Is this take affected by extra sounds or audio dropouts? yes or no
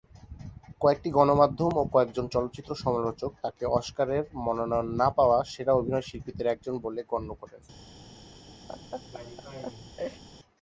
yes